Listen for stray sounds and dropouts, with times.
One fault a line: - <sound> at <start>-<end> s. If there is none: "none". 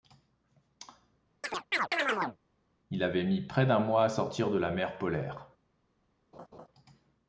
- chirp at 1.4-2.4 s
- laugh at 6.3-6.7 s